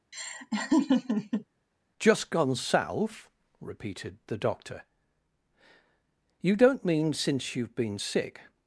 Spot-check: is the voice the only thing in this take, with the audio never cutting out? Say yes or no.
no